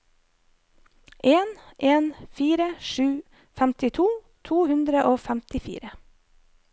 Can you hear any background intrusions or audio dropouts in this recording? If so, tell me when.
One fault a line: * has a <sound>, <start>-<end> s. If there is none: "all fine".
all fine